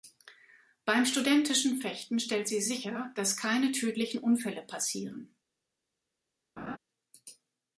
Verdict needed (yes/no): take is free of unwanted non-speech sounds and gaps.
no